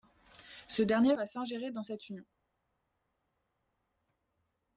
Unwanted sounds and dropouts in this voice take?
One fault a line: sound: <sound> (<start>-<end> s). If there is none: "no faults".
no faults